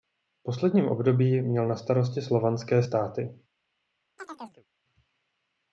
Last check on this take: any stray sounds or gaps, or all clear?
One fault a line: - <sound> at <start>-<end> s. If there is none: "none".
- chirp at 4.2-4.7 s